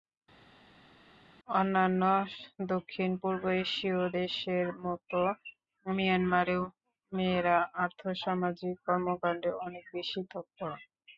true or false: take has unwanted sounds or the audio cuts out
false